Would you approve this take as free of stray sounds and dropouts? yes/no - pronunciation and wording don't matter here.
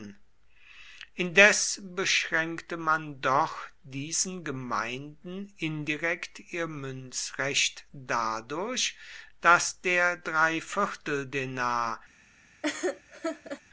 no